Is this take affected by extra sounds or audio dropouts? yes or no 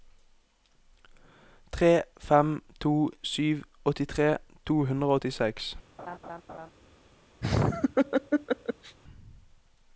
yes